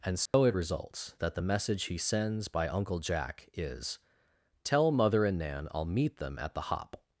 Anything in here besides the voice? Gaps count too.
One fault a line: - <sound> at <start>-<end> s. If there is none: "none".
- dropout at 0.3-0.3 s